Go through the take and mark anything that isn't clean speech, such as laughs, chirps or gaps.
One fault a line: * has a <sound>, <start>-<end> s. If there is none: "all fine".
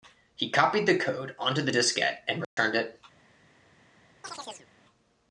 * has a dropout, 2.4-2.6 s
* has a chirp, 4.2-4.7 s